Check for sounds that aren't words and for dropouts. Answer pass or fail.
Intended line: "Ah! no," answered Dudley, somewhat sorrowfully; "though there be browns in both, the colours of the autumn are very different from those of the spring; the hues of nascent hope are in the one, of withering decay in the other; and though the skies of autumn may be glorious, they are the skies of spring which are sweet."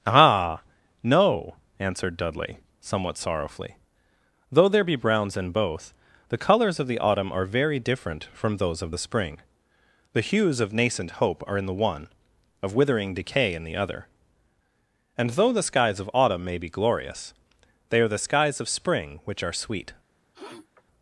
fail